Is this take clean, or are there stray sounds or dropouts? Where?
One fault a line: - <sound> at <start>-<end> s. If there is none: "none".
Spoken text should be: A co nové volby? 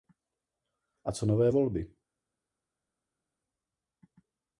none